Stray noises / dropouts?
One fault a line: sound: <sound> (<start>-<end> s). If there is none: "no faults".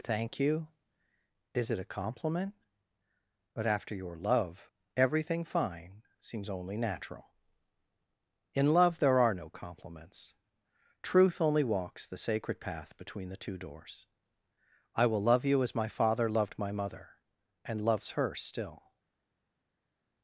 no faults